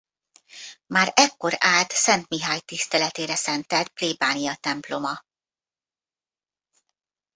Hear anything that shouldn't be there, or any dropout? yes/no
no